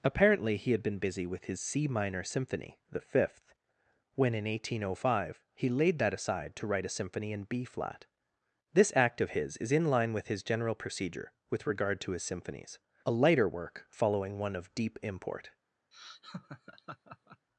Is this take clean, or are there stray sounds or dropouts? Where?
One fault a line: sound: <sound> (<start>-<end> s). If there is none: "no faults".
sound: laugh (15.9-17.5 s)